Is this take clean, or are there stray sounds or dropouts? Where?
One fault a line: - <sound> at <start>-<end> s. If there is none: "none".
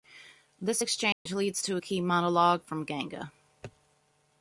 - dropout at 1.1-1.3 s